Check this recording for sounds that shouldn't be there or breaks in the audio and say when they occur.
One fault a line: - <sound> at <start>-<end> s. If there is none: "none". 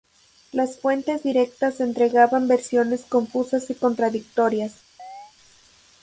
- chirp at 5.0-5.3 s